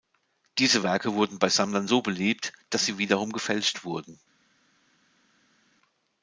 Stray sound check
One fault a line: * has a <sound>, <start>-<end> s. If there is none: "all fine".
all fine